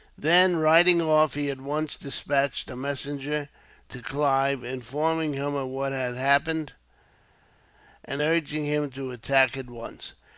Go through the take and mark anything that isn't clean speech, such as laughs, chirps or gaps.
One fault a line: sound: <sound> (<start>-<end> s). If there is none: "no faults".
no faults